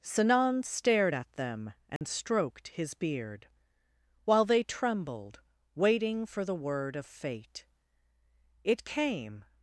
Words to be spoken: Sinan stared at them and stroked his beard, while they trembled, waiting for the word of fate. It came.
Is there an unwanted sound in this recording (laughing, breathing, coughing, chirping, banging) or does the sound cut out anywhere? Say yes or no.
yes